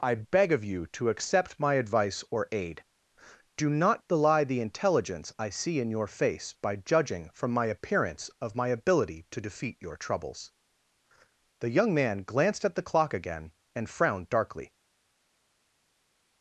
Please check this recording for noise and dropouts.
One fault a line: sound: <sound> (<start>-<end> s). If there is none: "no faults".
no faults